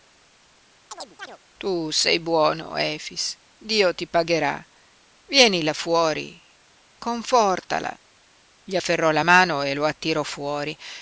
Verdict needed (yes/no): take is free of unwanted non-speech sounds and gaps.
no